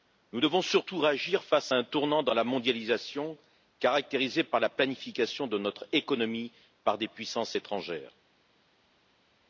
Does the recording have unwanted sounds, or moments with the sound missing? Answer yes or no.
no